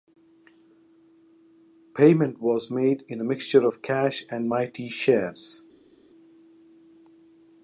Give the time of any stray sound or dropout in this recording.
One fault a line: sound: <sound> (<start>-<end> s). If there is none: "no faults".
no faults